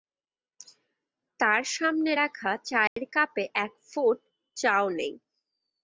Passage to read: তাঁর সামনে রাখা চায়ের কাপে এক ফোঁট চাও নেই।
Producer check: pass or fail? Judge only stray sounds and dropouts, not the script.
fail